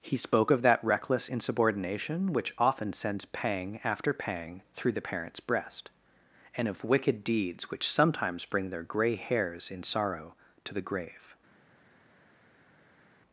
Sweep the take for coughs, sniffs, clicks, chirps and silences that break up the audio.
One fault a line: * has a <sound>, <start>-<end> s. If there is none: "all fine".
all fine